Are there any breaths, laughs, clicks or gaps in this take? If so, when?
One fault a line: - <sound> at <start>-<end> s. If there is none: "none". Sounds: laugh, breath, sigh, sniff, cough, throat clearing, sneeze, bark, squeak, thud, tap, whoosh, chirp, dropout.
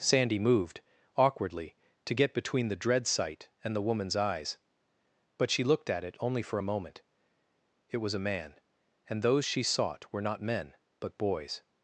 none